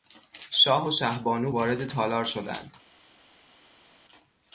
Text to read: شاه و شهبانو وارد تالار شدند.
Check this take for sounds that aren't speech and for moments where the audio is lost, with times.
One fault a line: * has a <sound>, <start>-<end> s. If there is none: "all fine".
all fine